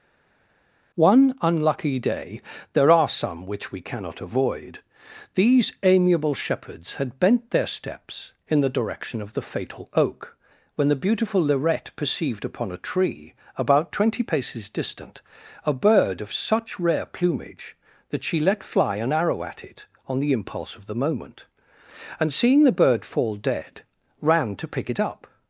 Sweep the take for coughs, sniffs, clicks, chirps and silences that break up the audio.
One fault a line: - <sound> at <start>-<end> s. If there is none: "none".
none